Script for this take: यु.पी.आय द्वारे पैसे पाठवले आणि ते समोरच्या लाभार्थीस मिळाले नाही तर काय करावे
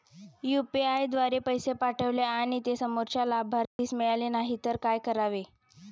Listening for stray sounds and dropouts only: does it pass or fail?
fail